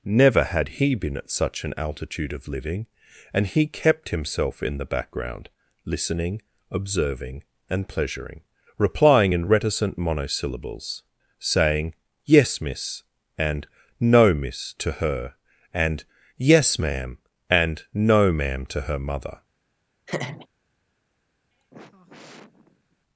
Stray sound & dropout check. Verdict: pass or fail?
fail